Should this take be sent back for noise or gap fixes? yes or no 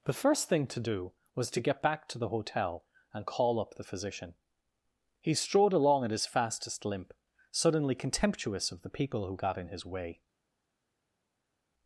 no